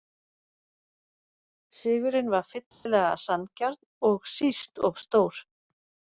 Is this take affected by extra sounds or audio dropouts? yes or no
yes